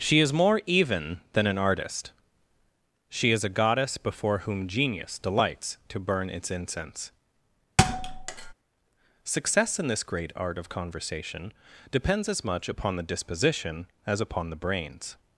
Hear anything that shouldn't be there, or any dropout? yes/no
yes